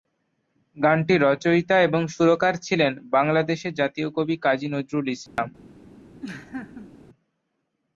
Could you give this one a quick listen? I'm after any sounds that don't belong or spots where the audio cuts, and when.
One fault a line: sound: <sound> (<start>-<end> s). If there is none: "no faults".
sound: dropout (5.3-5.4 s)
sound: laugh (6.2-6.9 s)